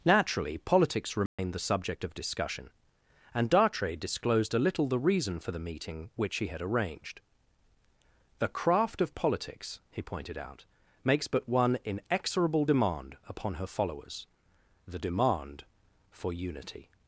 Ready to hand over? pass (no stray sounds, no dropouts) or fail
fail